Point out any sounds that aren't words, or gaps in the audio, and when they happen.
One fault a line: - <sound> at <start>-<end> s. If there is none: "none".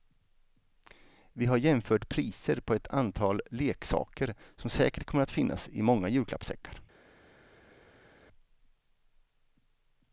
none